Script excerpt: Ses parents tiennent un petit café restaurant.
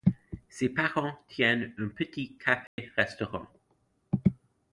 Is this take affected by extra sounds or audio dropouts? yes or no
yes